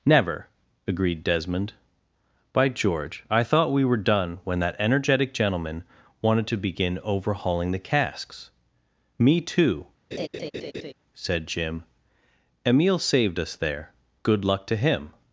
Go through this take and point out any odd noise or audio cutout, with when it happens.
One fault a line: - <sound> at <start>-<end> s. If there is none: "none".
- laugh at 10.1-10.9 s